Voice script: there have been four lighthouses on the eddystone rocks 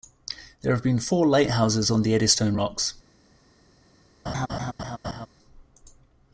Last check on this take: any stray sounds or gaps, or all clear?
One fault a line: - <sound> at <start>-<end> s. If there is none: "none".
- laugh at 4.3-5.3 s